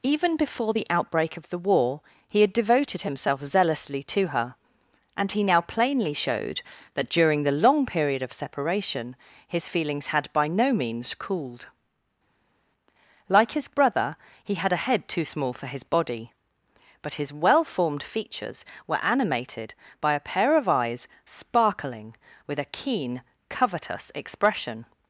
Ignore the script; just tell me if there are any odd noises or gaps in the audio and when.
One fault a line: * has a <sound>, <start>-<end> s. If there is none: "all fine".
all fine